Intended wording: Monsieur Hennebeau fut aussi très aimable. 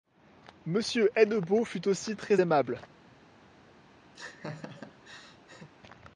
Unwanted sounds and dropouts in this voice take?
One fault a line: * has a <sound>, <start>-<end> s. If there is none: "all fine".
* has a laugh, 4.1-5.7 s